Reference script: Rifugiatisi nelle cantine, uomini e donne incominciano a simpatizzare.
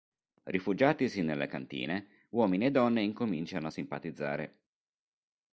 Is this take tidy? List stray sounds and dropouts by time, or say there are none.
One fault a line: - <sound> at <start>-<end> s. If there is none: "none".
none